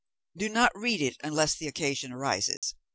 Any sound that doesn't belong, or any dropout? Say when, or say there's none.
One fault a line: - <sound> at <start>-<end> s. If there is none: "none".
- dropout at 2.6-2.6 s